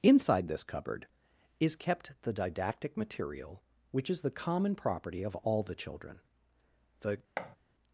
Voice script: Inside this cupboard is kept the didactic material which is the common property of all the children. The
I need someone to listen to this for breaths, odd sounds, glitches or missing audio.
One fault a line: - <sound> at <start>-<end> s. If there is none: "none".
- thud at 7.4-7.6 s